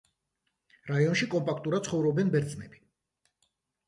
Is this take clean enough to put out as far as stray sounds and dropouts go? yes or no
yes